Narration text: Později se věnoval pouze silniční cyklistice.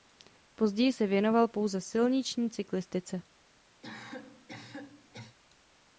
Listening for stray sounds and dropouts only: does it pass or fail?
fail